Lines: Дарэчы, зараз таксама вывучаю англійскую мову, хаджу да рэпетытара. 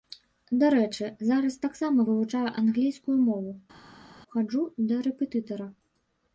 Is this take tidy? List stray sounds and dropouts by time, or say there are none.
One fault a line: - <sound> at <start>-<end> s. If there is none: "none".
none